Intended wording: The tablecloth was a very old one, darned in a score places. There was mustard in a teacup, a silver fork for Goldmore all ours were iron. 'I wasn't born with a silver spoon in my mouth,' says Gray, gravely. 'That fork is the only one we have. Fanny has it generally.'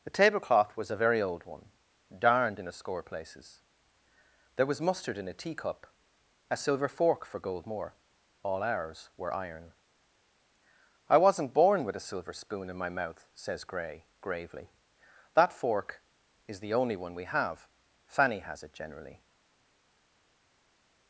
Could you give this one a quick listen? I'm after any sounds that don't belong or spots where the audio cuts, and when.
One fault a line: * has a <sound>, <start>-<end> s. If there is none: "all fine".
all fine